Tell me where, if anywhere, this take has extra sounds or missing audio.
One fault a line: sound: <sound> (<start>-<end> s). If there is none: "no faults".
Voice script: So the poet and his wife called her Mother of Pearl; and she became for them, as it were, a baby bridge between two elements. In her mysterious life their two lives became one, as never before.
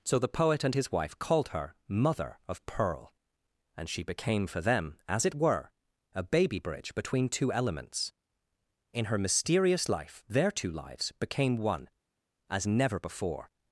no faults